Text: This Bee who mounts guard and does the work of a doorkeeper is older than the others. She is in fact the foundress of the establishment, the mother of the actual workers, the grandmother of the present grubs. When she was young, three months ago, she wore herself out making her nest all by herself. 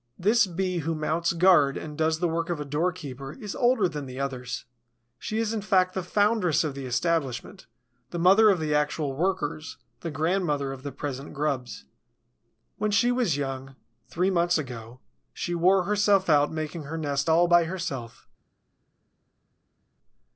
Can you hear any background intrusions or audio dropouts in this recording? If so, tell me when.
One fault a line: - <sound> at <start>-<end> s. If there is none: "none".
none